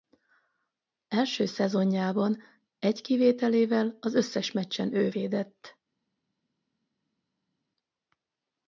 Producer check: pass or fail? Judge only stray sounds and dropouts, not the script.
pass